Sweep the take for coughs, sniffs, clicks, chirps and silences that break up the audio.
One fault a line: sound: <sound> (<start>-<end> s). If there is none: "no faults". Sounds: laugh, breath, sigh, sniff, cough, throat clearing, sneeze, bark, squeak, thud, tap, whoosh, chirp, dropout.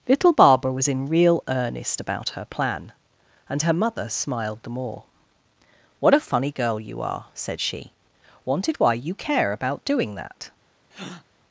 sound: breath (10.9-11.2 s)